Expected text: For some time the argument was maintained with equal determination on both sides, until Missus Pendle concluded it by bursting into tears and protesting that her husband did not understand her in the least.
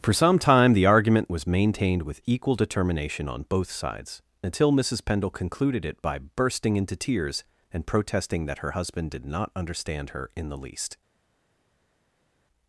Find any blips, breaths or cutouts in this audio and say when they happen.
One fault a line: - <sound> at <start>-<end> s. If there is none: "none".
none